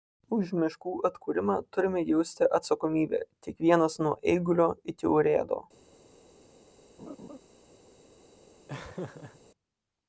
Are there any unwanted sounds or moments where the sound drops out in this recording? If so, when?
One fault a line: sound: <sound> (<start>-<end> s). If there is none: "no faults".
sound: laugh (7.0-7.4 s)
sound: laugh (8.7-9.4 s)